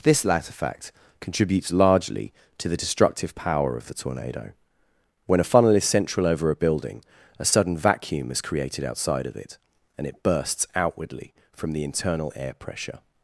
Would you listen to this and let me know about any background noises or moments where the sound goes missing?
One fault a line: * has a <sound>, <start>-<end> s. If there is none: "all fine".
all fine